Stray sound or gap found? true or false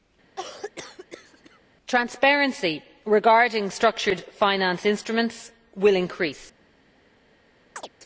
true